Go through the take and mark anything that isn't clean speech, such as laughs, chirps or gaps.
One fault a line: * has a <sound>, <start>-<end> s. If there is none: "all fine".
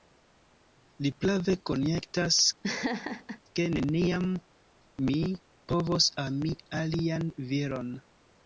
* has a laugh, 2.6-3.4 s